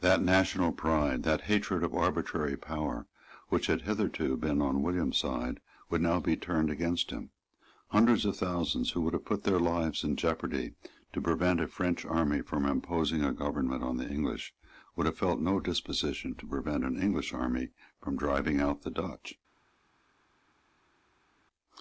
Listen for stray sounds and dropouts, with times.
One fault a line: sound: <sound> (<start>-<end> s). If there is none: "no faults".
no faults